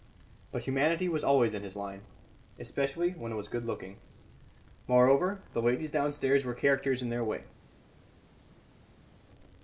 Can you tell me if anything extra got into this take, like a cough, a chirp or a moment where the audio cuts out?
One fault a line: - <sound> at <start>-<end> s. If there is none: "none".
none